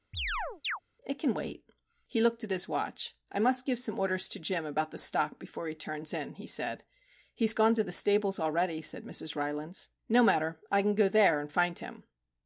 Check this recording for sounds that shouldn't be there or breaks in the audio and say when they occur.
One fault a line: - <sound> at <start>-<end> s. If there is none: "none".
- chirp at 0.1-0.8 s